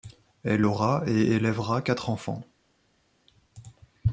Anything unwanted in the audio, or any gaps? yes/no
no